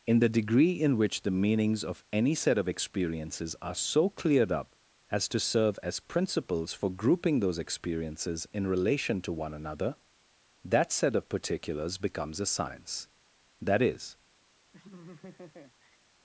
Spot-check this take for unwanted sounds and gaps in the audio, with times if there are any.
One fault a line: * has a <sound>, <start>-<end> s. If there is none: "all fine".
* has a laugh, 14.7-16.0 s